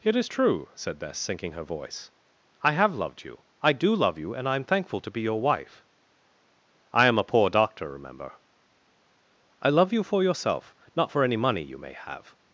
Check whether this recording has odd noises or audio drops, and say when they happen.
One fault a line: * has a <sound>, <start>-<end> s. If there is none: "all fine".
all fine